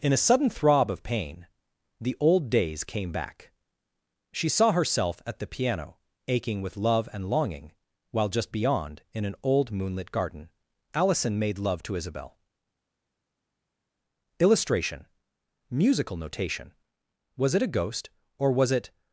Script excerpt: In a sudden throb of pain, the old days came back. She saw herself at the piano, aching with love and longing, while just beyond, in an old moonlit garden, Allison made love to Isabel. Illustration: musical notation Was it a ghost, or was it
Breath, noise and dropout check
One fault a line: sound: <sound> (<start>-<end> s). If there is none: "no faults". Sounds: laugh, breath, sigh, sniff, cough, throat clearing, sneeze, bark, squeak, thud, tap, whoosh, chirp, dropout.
no faults